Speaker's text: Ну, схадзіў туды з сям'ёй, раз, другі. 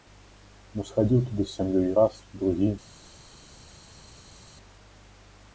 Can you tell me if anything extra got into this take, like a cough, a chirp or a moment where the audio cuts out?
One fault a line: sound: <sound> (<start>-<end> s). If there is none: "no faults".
no faults